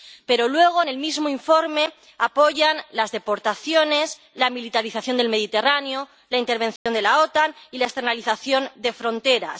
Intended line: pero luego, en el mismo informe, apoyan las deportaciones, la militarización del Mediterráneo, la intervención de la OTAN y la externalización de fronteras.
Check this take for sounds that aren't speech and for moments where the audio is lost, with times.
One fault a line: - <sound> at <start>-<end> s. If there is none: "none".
- dropout at 6.8-6.9 s